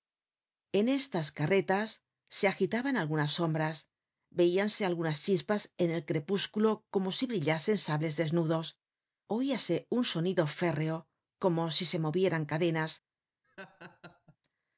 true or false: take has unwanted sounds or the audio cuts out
true